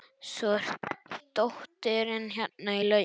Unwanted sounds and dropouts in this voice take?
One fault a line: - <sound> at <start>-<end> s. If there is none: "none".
none